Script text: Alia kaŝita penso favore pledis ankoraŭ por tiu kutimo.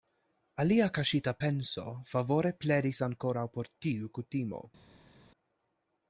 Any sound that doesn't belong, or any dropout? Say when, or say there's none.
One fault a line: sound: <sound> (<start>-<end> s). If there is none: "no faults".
no faults